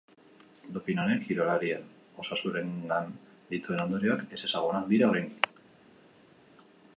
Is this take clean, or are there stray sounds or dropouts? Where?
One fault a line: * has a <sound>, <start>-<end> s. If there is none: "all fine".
all fine